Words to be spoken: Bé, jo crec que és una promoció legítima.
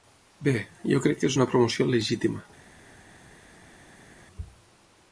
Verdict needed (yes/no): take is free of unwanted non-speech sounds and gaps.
yes